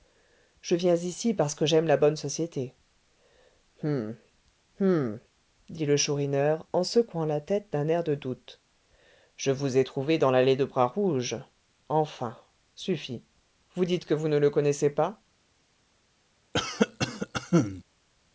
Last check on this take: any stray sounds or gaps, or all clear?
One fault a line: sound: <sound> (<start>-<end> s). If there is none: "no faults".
sound: cough (16.5-17.8 s)